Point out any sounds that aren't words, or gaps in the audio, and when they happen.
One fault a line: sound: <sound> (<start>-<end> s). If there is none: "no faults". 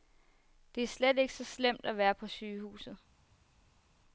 no faults